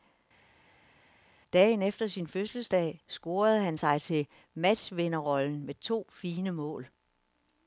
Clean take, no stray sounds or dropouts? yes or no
yes